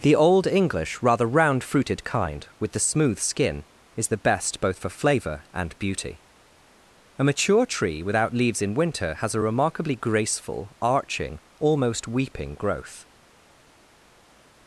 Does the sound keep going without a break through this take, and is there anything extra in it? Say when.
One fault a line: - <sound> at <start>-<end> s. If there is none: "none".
none